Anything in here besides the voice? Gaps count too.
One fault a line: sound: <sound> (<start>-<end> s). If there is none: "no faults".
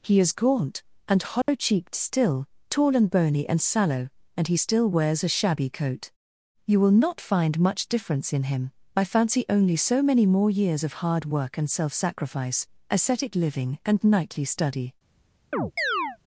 sound: dropout (1.4-1.5 s)
sound: chirp (15.5-16.2 s)